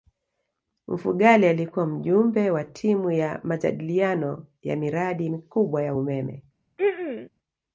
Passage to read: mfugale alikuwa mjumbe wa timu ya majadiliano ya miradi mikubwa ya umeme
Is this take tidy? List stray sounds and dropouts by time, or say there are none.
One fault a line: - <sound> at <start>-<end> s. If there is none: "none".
- throat clearing at 6.8-7.3 s